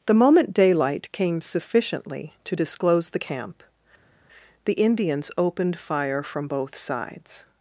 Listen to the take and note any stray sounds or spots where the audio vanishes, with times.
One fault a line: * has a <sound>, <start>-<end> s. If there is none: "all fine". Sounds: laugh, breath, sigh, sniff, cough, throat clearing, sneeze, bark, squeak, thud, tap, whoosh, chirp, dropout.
all fine